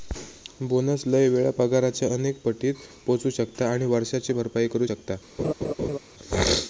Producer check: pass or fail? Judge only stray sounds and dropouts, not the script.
fail